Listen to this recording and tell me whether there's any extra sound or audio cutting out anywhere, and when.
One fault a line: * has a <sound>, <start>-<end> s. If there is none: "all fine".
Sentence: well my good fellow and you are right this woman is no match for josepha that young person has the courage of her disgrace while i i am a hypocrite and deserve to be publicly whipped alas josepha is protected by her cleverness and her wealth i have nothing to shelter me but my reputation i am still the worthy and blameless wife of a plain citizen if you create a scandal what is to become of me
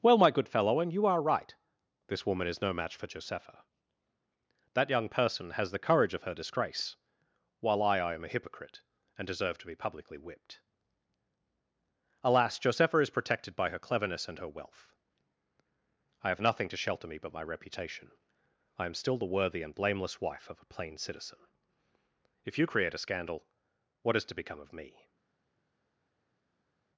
all fine